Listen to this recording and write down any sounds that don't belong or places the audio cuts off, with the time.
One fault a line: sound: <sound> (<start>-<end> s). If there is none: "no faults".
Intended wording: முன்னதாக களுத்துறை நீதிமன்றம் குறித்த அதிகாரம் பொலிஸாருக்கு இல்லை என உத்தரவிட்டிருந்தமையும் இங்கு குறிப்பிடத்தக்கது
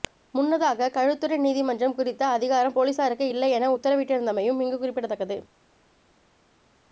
no faults